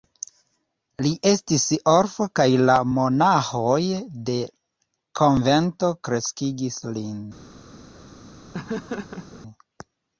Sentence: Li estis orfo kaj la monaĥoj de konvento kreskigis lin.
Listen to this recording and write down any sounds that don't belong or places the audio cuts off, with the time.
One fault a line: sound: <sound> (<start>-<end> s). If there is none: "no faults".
sound: laugh (8.5-9.4 s)